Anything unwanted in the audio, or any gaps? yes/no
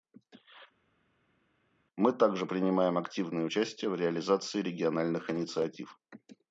no